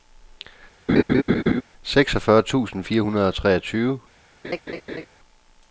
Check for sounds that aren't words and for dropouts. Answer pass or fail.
fail